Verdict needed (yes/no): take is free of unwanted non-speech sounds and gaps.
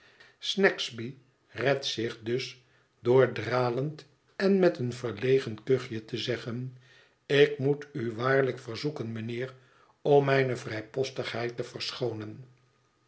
yes